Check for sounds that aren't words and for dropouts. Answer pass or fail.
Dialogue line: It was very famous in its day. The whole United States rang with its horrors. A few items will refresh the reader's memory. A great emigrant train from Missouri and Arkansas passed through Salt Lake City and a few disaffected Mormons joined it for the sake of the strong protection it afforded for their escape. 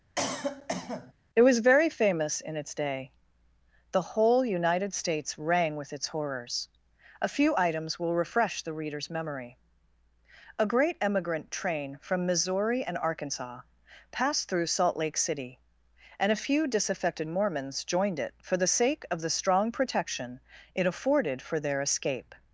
fail